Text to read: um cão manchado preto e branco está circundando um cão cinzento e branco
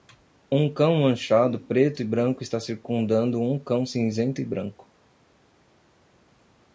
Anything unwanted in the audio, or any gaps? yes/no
no